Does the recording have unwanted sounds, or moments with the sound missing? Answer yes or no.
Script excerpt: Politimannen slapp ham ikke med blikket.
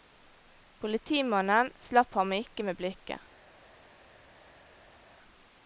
no